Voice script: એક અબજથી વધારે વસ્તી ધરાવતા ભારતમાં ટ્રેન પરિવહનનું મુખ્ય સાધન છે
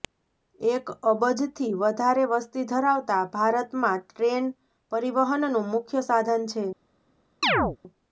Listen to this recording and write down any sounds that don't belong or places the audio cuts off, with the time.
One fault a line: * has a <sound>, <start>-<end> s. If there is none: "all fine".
* has a chirp, 7.4-7.8 s